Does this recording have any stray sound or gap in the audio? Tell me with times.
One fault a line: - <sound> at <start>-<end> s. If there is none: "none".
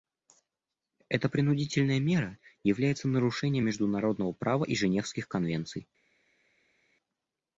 none